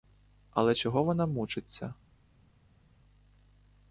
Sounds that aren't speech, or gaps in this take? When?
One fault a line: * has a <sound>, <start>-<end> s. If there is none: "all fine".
all fine